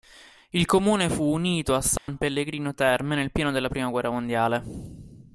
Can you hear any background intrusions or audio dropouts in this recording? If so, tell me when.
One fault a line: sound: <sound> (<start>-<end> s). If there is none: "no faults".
sound: dropout (2.0-2.1 s)